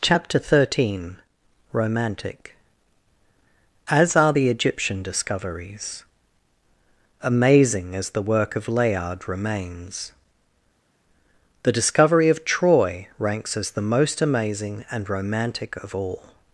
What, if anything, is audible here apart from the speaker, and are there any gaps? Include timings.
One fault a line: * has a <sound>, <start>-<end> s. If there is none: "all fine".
all fine